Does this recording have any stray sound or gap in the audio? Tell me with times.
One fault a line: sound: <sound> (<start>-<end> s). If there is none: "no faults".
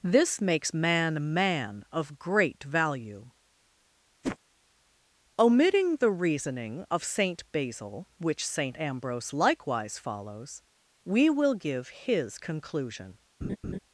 sound: whoosh (4.2-4.4 s)
sound: laugh (13.4-13.8 s)